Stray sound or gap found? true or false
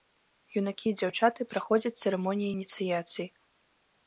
false